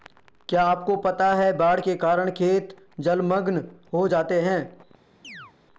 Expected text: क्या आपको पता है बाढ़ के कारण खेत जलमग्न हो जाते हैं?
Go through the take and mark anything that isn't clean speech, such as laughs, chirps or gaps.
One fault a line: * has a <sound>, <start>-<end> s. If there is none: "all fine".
* has a chirp, 5.2-5.5 s